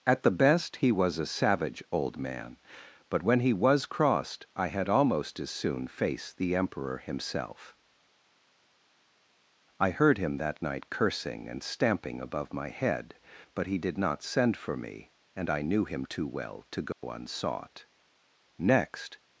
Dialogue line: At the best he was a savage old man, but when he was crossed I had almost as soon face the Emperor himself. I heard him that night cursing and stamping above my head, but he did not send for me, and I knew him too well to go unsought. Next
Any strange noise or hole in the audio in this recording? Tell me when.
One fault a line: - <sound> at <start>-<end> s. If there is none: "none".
- dropout at 16.9-17.0 s